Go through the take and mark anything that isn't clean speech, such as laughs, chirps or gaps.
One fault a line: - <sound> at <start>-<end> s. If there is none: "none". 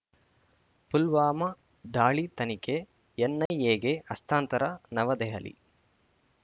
- dropout at 3.5-3.5 s